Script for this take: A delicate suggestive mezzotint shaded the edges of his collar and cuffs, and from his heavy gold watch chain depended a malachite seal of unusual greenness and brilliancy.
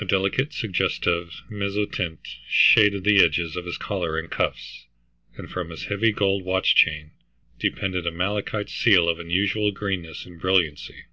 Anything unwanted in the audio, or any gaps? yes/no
no